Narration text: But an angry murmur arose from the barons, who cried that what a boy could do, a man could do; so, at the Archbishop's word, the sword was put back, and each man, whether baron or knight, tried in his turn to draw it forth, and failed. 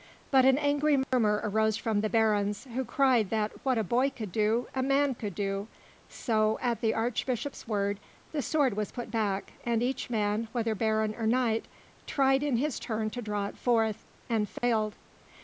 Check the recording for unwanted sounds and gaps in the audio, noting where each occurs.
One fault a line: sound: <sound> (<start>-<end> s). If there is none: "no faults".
sound: dropout (1.0-1.1 s)
sound: dropout (14.6-14.6 s)